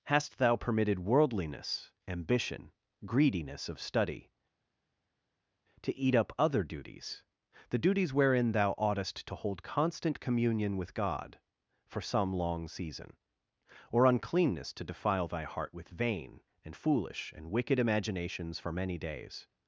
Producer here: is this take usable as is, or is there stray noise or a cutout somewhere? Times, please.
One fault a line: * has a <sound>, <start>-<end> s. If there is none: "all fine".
all fine